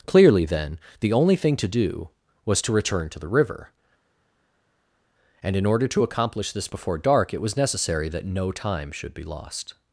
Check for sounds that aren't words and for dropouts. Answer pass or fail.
pass